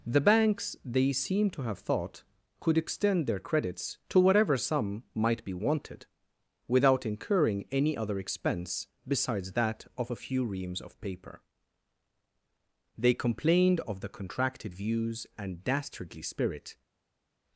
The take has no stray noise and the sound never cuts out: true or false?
true